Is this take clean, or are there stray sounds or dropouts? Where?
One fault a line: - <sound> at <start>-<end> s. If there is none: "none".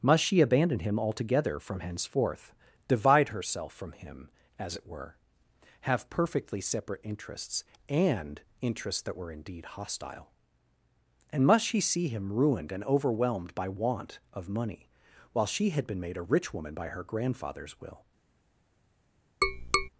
- tap at 19.4-19.9 s